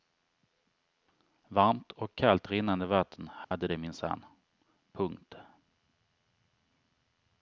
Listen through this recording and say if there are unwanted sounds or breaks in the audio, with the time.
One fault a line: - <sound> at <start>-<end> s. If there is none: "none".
- dropout at 3.4-3.5 s